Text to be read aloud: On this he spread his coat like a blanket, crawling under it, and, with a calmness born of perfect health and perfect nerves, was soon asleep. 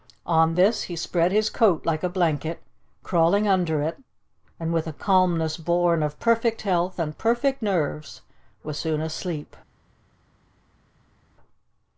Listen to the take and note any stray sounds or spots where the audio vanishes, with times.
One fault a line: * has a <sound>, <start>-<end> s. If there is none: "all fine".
all fine